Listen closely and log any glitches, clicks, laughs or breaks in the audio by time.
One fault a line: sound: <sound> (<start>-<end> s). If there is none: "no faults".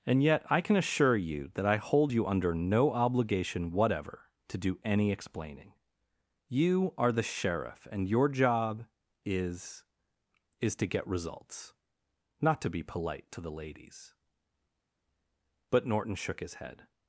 no faults